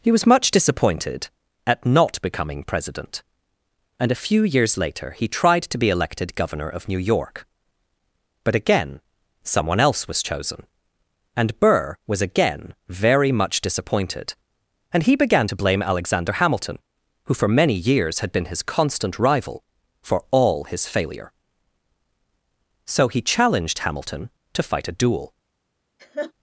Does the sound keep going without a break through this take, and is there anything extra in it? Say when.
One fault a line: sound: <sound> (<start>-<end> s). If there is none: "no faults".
sound: laugh (26.0-26.3 s)